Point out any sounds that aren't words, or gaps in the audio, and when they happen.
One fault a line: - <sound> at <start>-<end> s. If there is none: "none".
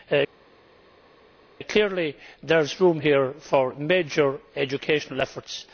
none